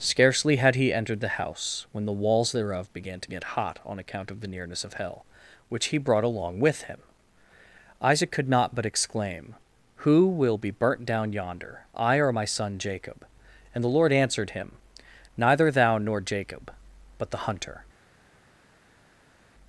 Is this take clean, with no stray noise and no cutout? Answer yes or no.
yes